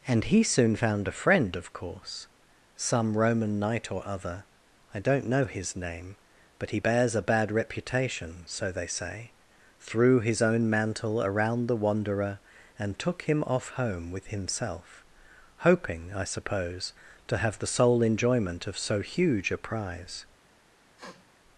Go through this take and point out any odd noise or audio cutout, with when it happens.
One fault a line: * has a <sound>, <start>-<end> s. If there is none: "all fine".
* has a sniff, 21.0-21.3 s